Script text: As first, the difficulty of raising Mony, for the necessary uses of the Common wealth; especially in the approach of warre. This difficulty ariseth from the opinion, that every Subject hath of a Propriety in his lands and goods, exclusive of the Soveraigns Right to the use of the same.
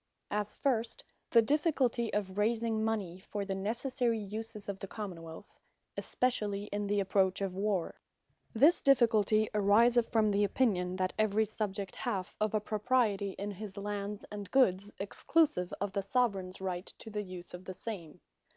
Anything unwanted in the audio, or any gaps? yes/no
no